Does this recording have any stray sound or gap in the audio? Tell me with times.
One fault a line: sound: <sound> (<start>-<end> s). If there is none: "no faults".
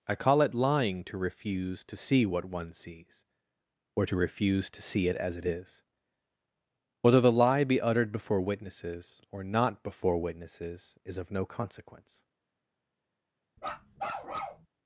sound: bark (13.6-14.7 s)